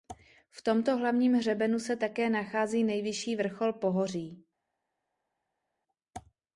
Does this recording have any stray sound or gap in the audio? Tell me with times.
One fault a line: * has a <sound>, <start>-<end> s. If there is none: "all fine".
all fine